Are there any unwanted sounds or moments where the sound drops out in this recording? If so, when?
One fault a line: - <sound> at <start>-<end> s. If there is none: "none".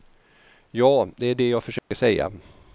- dropout at 1.8-1.9 s